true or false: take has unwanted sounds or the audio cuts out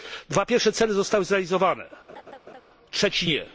true